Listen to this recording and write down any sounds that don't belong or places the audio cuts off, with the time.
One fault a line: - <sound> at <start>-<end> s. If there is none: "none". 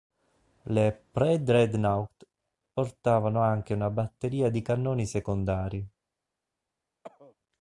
- cough at 7.0-7.3 s